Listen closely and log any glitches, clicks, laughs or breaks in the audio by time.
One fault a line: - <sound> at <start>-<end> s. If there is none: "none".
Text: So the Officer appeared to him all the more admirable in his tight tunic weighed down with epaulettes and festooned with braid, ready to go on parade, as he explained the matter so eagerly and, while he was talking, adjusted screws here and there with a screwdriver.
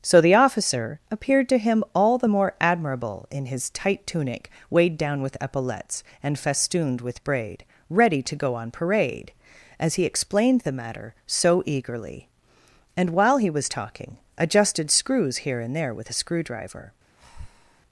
- breath at 17.2-17.8 s